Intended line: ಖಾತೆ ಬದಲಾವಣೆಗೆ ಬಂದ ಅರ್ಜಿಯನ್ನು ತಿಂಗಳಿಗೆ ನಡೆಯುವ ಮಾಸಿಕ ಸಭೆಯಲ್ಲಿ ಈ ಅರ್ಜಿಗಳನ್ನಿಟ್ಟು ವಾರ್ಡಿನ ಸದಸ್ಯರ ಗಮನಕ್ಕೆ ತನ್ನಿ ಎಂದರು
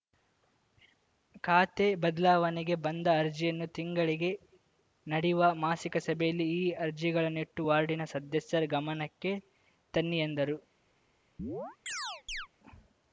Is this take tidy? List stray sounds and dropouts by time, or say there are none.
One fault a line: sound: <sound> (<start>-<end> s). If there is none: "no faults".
sound: chirp (11.4-12.5 s)